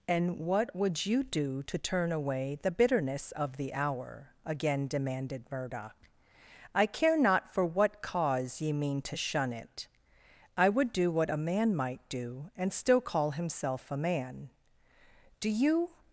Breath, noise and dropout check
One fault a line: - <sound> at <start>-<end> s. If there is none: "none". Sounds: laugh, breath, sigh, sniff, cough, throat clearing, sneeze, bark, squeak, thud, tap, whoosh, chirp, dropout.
none